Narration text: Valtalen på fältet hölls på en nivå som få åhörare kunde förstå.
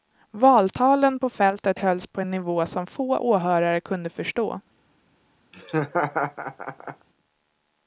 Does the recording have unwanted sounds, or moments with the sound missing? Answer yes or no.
yes